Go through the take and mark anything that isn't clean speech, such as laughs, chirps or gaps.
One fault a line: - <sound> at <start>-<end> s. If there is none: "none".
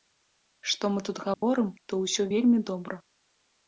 - dropout at 1.3-1.4 s